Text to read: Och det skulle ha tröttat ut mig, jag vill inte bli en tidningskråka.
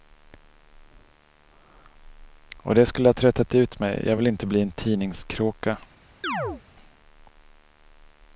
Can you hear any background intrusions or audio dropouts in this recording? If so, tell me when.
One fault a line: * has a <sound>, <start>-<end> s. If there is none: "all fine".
* has a chirp, 6.2-6.6 s